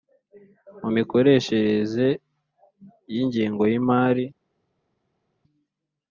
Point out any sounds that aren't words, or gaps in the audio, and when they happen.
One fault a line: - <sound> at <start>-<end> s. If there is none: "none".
none